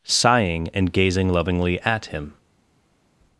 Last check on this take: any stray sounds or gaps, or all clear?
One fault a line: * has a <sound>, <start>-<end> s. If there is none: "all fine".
all fine